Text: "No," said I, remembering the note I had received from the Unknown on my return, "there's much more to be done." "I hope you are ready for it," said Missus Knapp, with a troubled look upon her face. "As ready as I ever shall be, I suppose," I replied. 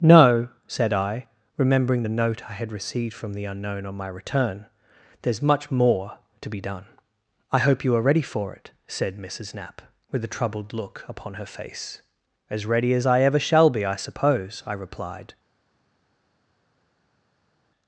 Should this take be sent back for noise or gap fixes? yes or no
no